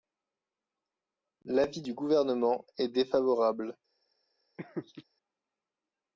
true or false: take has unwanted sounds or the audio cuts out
true